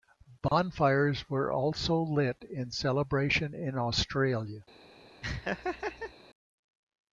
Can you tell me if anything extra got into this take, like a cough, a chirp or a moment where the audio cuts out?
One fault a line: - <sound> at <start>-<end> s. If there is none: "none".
- dropout at 0.5-0.5 s
- laugh at 5.2-6.1 s